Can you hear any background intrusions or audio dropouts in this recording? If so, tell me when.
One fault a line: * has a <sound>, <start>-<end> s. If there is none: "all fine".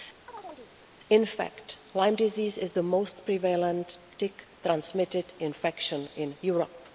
* has a chirp, 0.3-0.7 s